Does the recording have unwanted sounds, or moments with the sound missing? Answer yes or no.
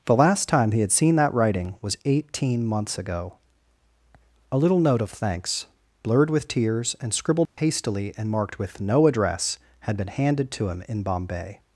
yes